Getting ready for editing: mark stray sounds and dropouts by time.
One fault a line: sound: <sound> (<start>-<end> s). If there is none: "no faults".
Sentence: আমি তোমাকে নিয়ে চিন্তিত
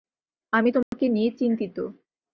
sound: dropout (0.8-0.9 s)